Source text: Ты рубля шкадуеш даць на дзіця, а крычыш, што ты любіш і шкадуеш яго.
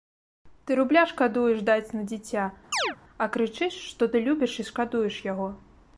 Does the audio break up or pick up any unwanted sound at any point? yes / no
yes